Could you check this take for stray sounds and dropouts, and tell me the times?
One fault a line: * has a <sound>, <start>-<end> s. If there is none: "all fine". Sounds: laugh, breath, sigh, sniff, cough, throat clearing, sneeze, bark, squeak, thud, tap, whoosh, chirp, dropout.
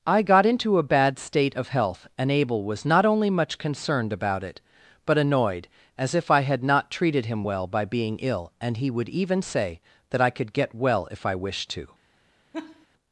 * has a laugh, 12.5-12.9 s